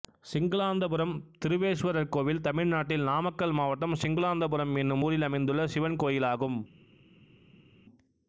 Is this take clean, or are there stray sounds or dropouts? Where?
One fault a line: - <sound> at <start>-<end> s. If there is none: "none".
none